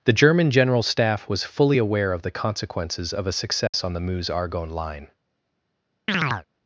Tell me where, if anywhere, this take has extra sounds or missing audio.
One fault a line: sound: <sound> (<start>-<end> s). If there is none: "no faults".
sound: dropout (3.7-3.7 s)
sound: chirp (6.1-6.5 s)